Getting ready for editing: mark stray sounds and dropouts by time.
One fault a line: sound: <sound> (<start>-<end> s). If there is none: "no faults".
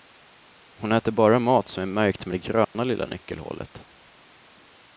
sound: dropout (2.6-2.7 s)